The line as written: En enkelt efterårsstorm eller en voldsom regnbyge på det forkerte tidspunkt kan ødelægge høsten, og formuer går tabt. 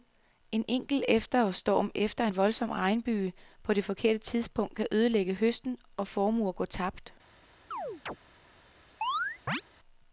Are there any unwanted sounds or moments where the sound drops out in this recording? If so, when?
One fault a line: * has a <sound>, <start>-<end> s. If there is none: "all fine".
* has a chirp, 7.7-8.2 s
* has a chirp, 9.0-9.6 s